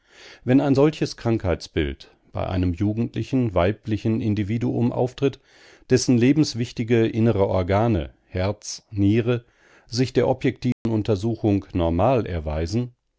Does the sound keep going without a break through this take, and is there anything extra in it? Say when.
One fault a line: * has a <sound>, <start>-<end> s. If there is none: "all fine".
* has a dropout, 10.7-10.9 s